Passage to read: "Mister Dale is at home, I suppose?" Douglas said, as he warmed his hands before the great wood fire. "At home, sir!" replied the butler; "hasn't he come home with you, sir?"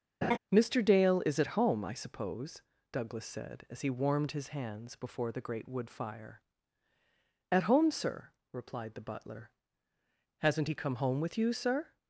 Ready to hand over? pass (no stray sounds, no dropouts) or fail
fail